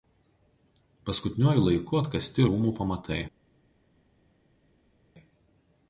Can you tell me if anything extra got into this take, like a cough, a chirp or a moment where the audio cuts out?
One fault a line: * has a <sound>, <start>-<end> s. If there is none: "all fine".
all fine